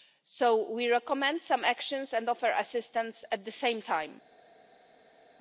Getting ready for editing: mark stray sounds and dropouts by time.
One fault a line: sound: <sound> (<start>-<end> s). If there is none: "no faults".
no faults